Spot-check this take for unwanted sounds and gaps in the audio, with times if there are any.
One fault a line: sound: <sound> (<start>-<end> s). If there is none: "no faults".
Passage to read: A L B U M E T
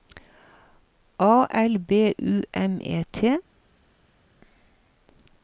no faults